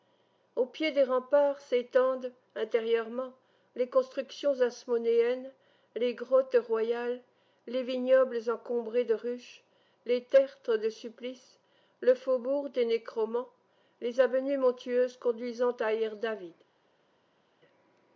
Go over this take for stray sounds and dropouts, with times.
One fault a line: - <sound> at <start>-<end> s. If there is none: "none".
none